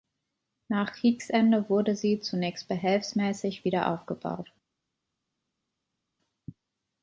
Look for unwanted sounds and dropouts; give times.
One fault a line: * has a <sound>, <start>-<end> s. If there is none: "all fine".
all fine